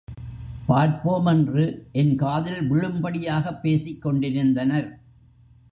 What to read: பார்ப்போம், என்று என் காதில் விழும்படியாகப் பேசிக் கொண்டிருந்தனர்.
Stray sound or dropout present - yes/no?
no